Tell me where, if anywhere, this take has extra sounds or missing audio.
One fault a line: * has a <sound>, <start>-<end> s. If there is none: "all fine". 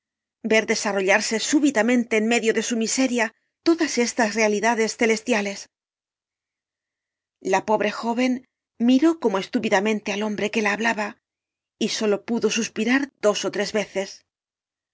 all fine